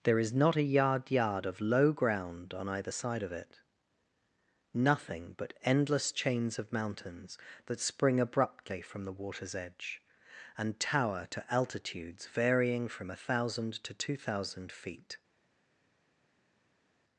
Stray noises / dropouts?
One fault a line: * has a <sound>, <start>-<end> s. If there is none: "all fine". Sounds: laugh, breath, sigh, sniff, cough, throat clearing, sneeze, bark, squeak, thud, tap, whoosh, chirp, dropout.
all fine